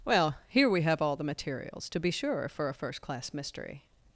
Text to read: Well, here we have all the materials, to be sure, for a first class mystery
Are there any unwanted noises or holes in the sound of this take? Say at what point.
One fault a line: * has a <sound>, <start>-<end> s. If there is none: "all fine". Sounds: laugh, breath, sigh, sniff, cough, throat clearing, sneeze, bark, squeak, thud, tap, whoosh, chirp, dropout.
all fine